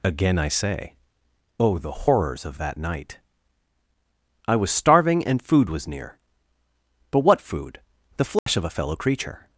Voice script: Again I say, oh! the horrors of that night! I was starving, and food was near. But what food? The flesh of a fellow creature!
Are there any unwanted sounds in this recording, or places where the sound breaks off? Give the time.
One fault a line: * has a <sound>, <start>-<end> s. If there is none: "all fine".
* has a dropout, 8.4-8.5 s